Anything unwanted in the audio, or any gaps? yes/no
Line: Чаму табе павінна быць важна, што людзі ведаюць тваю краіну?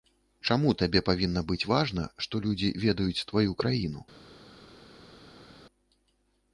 no